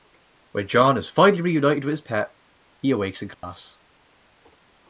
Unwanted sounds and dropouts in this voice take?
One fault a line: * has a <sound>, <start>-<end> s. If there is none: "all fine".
* has a dropout, 3.3-3.4 s